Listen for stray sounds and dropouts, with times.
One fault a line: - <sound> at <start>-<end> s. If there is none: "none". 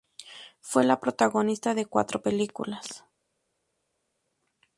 none